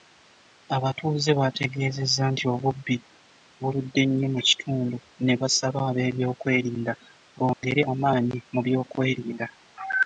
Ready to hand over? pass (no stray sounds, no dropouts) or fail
fail